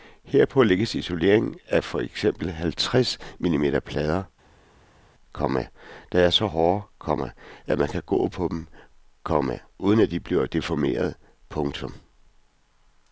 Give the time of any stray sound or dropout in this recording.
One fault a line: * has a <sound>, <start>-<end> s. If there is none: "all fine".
all fine